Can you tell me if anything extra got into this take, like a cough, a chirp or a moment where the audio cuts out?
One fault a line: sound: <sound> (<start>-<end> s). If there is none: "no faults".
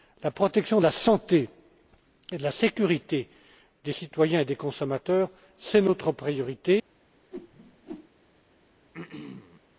sound: whoosh (7.3-8.1 s)
sound: throat clearing (8.9-9.6 s)